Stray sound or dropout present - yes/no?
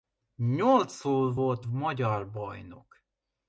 no